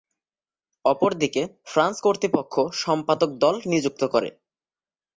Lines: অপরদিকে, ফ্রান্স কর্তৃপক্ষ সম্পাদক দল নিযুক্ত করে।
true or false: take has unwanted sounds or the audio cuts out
false